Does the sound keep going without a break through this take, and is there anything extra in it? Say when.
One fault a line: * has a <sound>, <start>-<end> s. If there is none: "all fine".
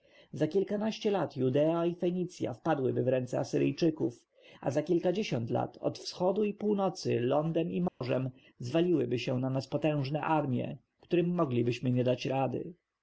* has a dropout, 7.9-8.0 s